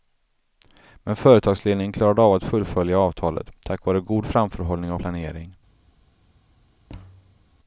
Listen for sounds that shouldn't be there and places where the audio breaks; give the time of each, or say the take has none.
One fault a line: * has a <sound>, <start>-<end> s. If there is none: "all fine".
* has a thud, 6.9-7.4 s